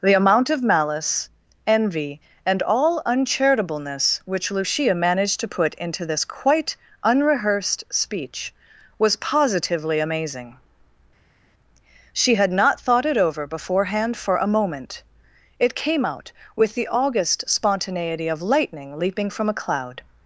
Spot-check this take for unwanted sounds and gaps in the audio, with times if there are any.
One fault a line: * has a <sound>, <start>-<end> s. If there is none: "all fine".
all fine